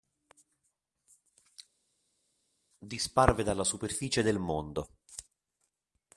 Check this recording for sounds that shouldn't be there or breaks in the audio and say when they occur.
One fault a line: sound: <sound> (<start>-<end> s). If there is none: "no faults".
no faults